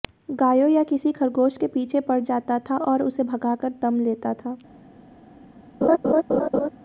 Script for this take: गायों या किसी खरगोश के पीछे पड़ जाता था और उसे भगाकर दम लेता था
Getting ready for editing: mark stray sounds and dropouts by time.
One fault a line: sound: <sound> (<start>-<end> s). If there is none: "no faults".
sound: laugh (5.8-6.7 s)